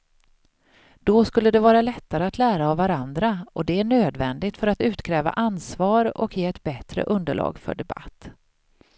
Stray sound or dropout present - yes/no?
no